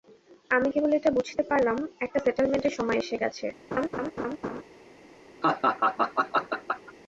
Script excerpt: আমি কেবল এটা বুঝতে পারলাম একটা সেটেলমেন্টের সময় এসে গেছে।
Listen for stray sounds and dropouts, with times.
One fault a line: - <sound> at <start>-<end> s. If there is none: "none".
- laugh at 3.7-4.6 s
- laugh at 5.4-6.9 s